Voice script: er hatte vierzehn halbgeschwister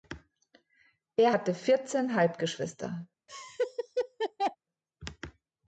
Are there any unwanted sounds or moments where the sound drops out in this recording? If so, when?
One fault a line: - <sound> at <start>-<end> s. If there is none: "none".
- laugh at 3.3-4.6 s